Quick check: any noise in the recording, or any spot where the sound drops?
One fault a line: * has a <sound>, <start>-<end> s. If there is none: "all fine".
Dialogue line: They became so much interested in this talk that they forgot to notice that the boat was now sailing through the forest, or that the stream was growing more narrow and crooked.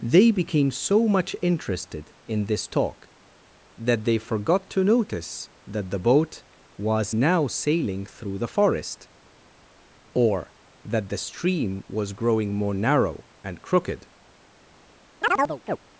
* has a chirp, 15.2-15.8 s